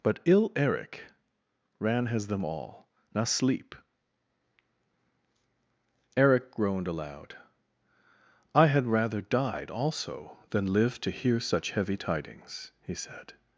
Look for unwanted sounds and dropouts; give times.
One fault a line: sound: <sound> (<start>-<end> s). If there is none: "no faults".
no faults